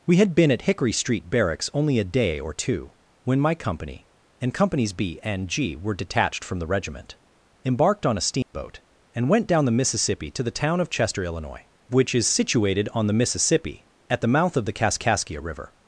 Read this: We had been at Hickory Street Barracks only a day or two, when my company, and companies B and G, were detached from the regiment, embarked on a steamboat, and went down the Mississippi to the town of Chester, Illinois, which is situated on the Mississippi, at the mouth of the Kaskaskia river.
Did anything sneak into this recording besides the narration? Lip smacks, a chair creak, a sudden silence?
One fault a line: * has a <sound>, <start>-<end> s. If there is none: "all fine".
* has a dropout, 8.4-8.5 s